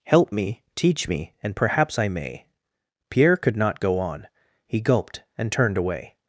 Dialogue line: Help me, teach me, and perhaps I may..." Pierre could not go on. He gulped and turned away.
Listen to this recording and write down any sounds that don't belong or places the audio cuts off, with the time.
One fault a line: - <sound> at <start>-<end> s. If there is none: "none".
none